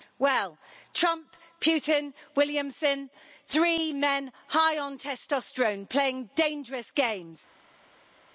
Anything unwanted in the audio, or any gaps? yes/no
no